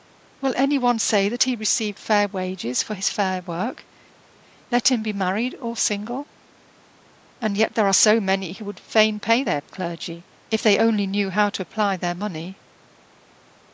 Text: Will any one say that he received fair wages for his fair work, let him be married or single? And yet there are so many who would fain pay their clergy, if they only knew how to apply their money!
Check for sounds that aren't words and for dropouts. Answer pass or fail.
pass